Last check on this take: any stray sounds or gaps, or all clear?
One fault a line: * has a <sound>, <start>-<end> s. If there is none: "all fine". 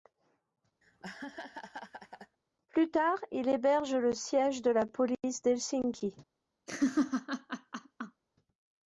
* has a laugh, 0.8-2.4 s
* has a laugh, 6.7-8.2 s